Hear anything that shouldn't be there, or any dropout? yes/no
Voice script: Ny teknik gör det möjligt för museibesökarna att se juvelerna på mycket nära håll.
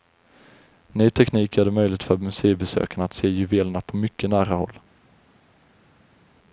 no